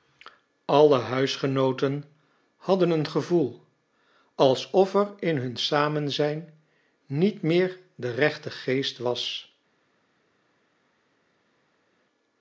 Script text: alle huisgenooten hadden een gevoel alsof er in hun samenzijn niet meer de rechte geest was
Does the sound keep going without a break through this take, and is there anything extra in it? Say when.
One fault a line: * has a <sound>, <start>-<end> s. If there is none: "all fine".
all fine